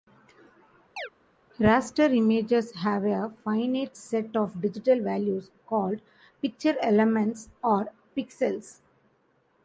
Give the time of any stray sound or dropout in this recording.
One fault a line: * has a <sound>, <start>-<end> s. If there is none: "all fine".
* has a chirp, 1.0-1.1 s